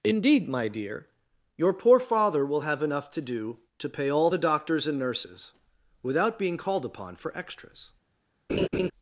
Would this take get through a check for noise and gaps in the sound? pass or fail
fail